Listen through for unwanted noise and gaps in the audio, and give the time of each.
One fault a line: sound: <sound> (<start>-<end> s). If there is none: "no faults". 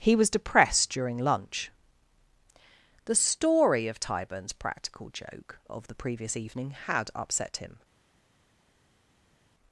no faults